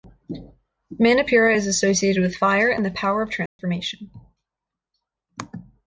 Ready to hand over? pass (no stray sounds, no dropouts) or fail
fail